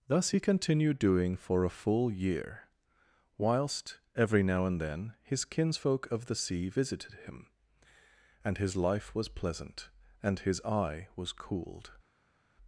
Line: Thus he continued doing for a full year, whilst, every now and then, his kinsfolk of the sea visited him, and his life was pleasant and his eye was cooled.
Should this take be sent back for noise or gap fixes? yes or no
no